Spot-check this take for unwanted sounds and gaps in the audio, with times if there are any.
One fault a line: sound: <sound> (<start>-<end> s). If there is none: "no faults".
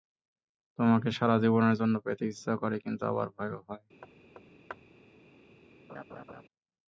sound: thud (4.0-4.9 s)
sound: laugh (5.9-6.4 s)